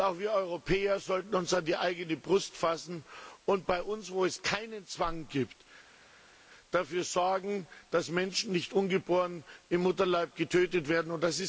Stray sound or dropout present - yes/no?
no